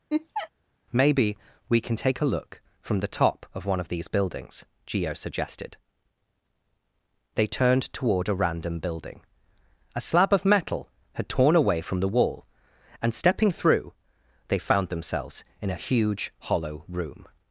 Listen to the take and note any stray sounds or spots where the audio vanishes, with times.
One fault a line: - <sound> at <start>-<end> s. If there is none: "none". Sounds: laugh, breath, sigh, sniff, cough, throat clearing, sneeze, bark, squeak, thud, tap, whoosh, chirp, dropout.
- laugh at 0.1-0.5 s